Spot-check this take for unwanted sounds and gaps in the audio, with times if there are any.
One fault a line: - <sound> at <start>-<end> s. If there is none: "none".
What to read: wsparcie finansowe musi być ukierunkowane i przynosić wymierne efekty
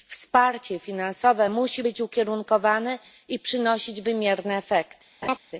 - laugh at 5.2-5.4 s